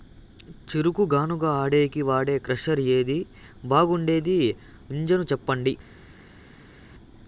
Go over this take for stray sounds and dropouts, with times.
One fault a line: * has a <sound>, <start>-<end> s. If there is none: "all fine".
all fine